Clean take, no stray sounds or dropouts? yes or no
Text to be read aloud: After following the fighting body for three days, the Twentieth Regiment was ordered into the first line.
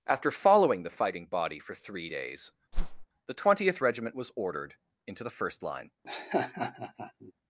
no